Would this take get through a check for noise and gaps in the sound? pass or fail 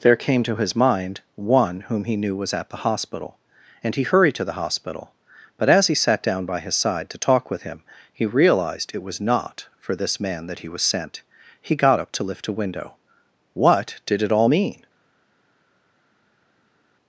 pass